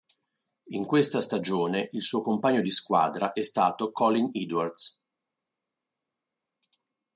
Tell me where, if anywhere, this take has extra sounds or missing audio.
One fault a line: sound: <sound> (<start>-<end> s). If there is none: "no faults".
no faults